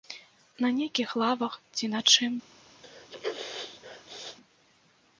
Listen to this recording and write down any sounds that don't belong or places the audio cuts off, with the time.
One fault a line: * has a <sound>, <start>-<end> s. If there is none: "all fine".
* has a sneeze, 2.8-4.4 s